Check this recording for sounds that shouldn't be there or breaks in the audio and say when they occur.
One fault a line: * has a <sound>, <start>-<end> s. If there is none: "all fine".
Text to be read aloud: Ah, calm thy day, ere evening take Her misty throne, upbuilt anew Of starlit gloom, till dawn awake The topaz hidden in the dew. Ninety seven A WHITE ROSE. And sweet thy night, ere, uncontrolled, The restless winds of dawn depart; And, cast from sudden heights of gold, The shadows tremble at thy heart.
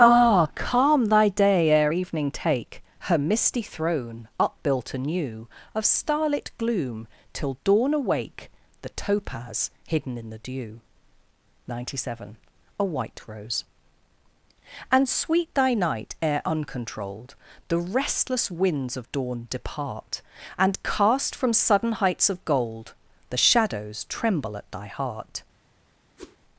* has a whoosh, 26.2-26.4 s